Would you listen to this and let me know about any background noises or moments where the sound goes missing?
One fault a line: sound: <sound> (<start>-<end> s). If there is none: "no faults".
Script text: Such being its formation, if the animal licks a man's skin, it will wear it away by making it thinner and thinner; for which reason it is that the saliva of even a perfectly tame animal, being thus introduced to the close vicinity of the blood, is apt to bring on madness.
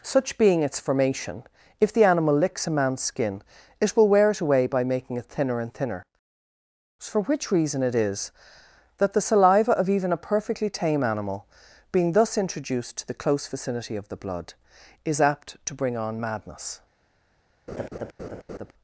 sound: laugh (17.7-18.7 s)